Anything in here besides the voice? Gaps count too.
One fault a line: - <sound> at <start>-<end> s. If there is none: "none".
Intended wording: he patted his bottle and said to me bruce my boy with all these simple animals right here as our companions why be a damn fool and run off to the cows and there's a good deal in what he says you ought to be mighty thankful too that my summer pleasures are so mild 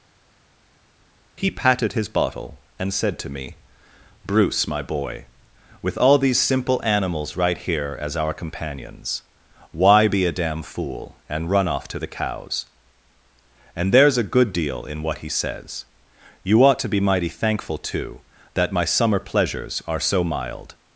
none